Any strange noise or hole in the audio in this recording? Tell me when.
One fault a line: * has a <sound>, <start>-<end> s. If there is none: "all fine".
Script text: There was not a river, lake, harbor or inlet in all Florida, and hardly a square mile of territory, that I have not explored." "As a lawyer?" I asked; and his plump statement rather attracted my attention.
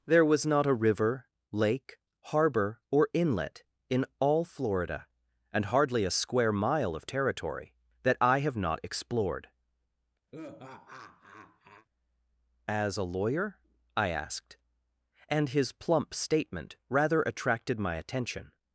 * has a laugh, 10.3-11.9 s